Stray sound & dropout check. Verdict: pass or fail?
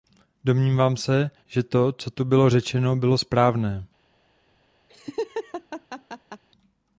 fail